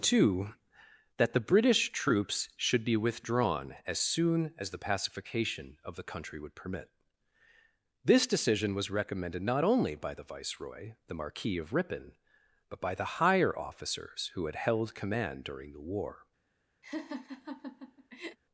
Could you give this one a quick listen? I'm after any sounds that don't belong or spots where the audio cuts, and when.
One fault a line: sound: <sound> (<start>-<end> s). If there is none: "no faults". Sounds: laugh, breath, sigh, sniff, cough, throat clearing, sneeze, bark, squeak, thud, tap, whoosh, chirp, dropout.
sound: laugh (16.8-18.4 s)